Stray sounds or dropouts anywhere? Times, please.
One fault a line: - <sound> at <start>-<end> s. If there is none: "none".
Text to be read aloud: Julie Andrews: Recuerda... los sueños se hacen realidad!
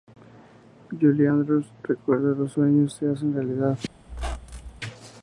- squeak at 4.1-4.8 s